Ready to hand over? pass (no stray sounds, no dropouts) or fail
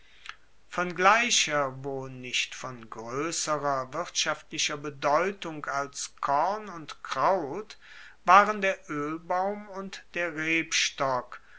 pass